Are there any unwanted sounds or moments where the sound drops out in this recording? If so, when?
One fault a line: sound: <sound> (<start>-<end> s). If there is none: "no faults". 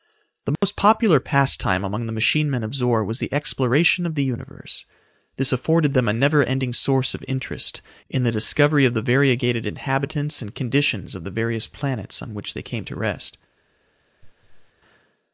sound: dropout (0.6-0.6 s)
sound: laugh (14.2-14.7 s)